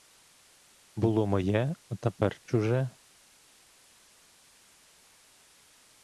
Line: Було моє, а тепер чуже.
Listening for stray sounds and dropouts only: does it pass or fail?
pass